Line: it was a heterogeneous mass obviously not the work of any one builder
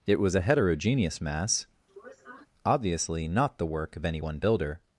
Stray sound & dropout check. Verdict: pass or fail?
fail